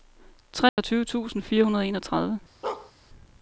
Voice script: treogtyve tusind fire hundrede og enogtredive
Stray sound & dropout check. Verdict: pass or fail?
fail